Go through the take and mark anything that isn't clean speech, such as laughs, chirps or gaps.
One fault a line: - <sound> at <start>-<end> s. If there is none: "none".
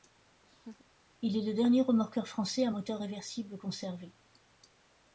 - laugh at 0.4-0.9 s